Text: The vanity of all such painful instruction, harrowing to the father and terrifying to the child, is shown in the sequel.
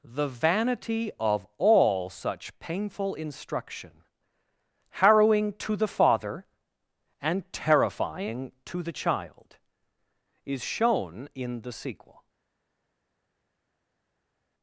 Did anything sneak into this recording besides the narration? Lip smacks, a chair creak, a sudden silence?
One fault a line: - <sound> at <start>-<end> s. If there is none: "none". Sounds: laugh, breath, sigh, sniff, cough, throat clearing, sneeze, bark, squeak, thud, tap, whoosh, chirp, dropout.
none